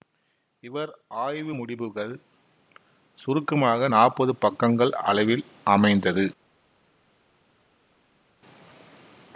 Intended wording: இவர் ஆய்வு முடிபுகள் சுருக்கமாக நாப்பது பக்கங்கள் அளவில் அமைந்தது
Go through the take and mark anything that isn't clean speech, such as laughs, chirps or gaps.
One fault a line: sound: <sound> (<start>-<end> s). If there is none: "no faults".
no faults